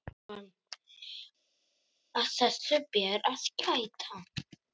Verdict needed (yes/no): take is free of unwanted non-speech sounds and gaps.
yes